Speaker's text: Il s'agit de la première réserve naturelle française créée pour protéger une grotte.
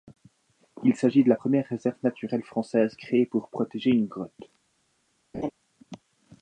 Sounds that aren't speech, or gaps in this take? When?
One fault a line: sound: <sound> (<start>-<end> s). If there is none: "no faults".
sound: laugh (5.3-5.5 s)